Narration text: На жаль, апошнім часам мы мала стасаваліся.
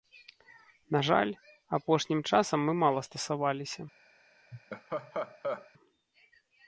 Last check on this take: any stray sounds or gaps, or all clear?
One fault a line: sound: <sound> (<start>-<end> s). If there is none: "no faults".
sound: laugh (4.5-5.7 s)